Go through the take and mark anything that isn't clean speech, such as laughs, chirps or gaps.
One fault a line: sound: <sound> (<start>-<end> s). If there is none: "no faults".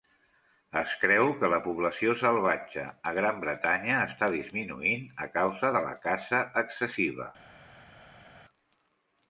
no faults